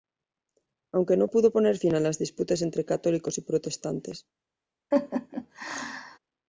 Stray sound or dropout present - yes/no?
yes